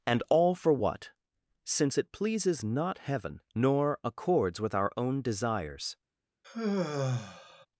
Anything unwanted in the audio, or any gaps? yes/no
yes